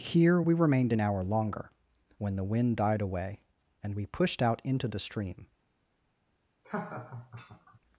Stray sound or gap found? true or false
true